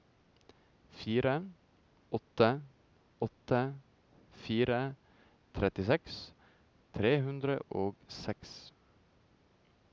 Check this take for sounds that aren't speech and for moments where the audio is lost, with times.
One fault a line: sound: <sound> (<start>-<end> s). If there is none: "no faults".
no faults